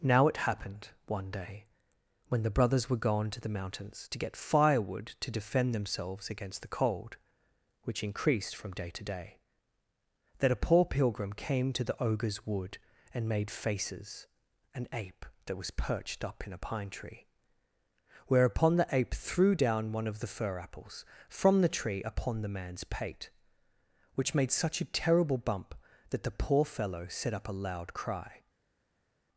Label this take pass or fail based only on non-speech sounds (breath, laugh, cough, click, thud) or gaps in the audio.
pass